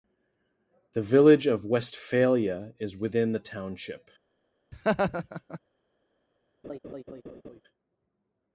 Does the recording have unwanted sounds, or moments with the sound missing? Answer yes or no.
yes